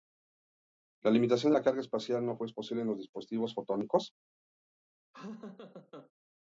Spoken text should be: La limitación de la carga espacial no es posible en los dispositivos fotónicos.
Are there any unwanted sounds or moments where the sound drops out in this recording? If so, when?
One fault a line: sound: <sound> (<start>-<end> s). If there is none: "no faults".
sound: laugh (5.1-6.1 s)